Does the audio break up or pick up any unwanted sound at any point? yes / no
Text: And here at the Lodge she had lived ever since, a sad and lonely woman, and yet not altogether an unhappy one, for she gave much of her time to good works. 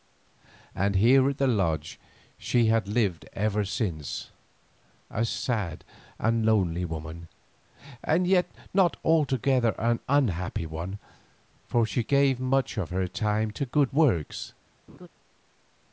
yes